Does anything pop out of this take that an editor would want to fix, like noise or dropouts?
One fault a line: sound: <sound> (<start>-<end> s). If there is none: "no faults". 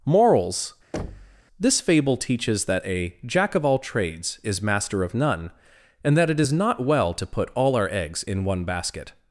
sound: thud (0.9-1.4 s)